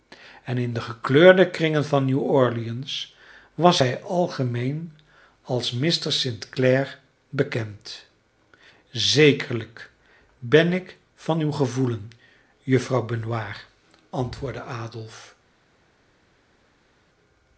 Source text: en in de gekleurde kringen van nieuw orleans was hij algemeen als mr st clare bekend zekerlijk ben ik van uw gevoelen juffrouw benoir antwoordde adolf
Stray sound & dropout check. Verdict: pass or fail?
pass